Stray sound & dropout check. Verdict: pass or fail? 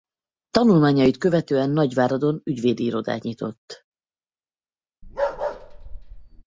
fail